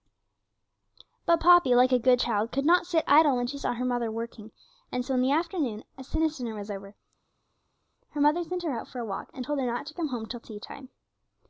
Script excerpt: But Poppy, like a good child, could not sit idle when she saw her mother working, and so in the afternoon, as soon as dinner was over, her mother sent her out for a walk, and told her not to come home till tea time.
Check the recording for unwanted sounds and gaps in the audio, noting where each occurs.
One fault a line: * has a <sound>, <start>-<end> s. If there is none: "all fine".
all fine